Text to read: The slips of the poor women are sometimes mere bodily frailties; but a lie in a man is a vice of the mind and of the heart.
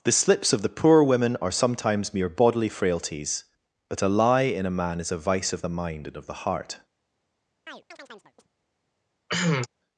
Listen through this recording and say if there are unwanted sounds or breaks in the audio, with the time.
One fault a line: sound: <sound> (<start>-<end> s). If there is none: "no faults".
sound: chirp (7.7-8.5 s)
sound: cough (9.3-9.7 s)